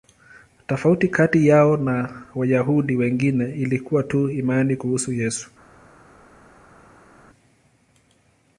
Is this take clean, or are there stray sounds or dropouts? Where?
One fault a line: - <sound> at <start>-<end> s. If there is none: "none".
none